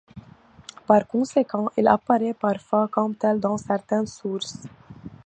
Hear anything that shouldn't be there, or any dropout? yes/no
no